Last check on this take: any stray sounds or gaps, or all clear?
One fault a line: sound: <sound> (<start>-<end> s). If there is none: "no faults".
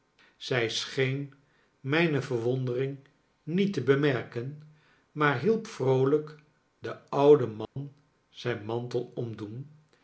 sound: dropout (7.6-7.8 s)